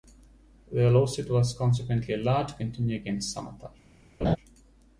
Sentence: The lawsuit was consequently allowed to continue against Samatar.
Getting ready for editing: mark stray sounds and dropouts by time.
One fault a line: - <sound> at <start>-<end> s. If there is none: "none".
- laugh at 4.2-4.4 s